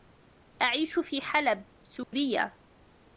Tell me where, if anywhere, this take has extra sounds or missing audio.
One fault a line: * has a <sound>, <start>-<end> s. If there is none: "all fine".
* has a dropout, 2.0-2.1 s